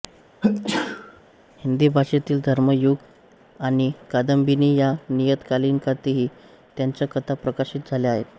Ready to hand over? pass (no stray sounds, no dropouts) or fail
fail